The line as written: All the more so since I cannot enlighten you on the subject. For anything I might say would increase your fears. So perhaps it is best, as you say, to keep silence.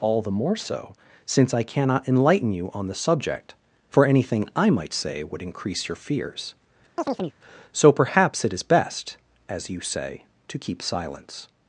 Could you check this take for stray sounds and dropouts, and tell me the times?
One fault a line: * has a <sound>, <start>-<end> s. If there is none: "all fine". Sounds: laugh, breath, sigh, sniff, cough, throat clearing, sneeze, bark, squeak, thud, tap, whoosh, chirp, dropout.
* has a chirp, 7.0-7.4 s